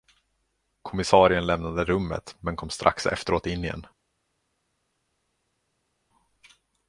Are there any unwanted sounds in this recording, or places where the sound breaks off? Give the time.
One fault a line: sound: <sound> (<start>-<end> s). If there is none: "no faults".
no faults